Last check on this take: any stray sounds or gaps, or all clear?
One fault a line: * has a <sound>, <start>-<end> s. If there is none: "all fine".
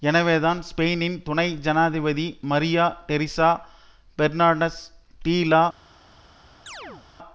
* has a chirp, 6.7-7.1 s